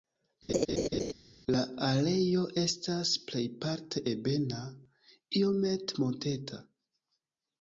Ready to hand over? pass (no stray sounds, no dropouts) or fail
fail